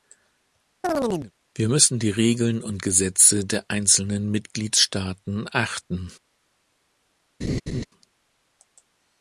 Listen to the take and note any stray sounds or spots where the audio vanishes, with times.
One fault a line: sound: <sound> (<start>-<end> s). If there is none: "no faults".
sound: chirp (0.8-1.3 s)
sound: laugh (7.4-7.9 s)